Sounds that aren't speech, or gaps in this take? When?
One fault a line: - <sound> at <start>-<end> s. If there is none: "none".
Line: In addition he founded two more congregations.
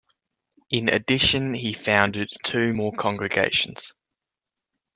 none